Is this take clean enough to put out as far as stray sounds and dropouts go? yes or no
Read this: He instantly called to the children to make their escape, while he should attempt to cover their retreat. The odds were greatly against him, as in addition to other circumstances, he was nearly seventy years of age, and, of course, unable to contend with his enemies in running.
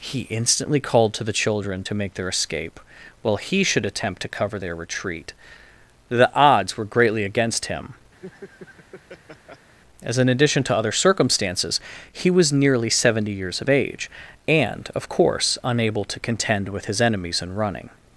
no